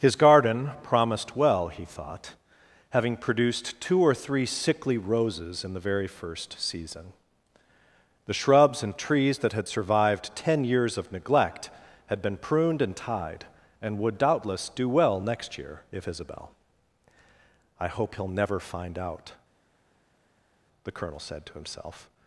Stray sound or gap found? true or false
false